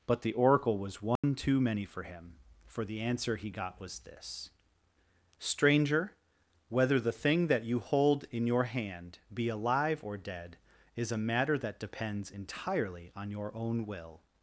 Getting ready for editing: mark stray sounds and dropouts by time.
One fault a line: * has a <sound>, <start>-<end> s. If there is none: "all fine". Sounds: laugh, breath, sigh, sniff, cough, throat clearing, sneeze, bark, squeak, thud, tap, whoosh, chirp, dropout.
* has a dropout, 1.2-1.2 s